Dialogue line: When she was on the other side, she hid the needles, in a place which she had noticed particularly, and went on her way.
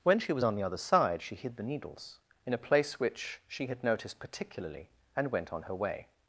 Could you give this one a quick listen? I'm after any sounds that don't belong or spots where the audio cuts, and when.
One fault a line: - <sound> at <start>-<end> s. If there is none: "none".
none